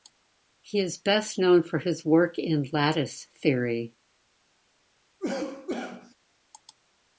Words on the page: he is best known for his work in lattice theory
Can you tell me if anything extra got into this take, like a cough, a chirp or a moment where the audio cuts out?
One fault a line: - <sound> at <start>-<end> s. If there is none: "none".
- cough at 5.2-6.1 s